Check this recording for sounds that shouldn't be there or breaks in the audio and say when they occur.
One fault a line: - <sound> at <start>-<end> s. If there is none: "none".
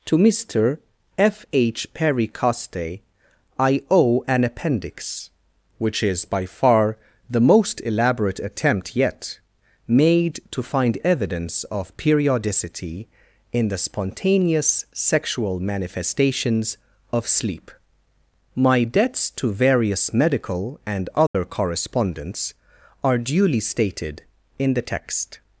- dropout at 21.3-21.3 s